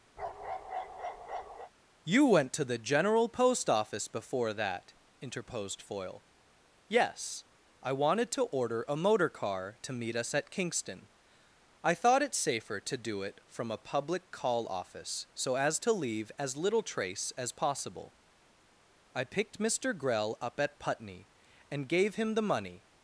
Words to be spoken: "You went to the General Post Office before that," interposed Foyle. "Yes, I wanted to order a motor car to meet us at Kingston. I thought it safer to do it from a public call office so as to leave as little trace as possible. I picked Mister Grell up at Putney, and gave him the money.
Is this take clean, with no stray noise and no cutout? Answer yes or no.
no